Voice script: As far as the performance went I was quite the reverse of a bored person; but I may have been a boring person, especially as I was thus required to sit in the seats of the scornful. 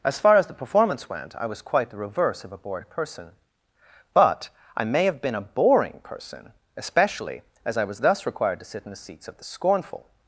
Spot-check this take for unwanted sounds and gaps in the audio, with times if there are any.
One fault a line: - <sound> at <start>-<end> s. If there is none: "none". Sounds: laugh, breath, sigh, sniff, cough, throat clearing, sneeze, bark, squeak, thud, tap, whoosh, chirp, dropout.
none